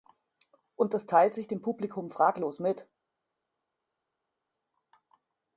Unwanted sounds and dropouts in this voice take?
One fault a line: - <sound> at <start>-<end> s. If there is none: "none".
none